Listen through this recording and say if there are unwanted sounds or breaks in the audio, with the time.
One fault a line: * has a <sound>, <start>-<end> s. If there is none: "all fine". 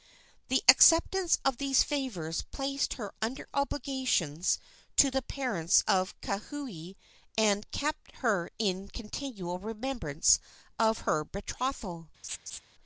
* has a laugh, 12.2-12.6 s